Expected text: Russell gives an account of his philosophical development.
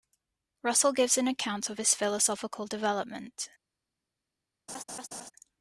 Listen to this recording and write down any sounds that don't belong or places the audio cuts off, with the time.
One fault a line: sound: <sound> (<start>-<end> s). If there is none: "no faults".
sound: laugh (4.7-5.3 s)